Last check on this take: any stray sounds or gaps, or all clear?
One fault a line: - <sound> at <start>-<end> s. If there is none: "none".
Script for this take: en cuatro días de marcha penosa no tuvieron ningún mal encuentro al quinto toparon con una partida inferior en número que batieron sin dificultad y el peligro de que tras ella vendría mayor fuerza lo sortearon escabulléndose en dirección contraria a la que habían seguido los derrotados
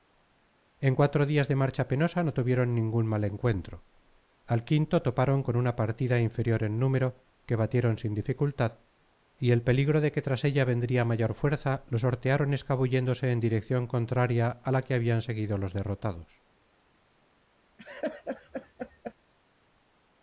- laugh at 17.8-19.1 s